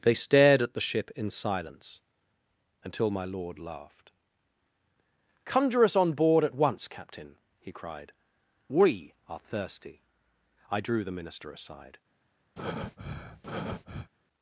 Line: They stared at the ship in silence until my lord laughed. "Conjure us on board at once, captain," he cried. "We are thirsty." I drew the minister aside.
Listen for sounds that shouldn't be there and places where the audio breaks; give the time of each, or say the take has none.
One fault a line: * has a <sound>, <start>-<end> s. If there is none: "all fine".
* has a breath, 12.6-14.1 s